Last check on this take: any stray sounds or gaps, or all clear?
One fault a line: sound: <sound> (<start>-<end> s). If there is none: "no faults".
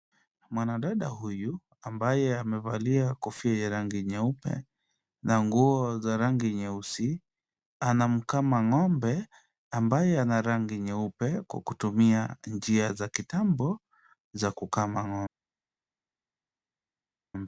no faults